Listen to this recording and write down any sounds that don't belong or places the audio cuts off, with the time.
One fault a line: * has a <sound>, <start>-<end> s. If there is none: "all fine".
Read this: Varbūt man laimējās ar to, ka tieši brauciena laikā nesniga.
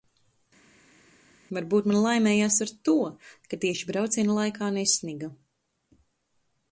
all fine